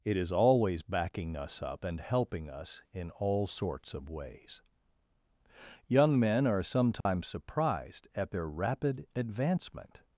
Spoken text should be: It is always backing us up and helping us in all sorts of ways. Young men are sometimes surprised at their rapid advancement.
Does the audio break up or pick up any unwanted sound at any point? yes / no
yes